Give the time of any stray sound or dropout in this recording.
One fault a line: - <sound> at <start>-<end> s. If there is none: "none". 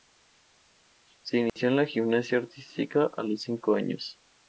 - dropout at 1.5-1.6 s